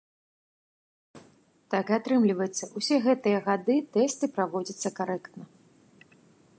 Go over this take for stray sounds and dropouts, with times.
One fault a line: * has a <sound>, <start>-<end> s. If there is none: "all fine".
all fine